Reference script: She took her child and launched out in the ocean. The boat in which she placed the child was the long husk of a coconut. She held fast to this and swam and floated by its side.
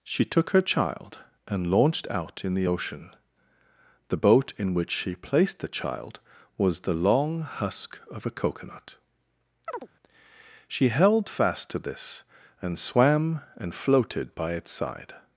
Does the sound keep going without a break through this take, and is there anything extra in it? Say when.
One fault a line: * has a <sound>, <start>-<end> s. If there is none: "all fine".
* has a chirp, 9.7-9.9 s